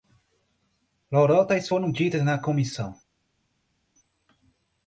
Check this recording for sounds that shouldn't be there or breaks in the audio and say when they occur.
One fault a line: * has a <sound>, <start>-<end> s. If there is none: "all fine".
all fine